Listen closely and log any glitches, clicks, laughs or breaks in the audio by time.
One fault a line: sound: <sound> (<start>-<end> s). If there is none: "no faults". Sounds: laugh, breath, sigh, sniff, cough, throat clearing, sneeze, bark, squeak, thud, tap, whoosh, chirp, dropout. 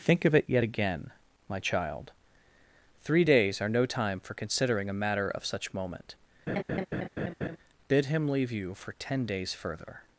sound: laugh (6.5-7.6 s)